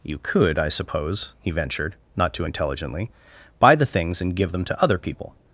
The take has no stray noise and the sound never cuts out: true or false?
true